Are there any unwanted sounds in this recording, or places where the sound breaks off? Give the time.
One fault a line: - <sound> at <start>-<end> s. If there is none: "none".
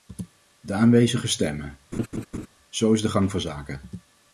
- laugh at 1.9-2.5 s